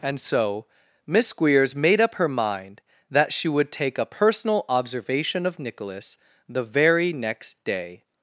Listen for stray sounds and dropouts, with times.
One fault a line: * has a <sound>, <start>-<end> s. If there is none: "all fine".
all fine